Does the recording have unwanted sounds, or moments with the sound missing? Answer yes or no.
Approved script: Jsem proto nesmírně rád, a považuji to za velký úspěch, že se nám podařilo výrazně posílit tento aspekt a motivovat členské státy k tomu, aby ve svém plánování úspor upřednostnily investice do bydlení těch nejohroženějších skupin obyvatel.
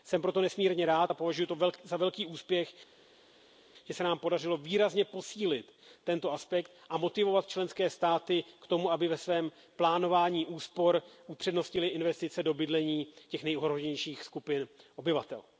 no